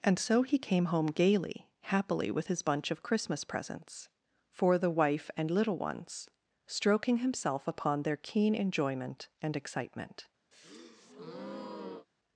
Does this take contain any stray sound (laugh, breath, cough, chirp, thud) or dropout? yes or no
yes